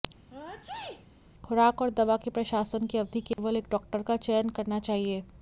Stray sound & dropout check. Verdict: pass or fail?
fail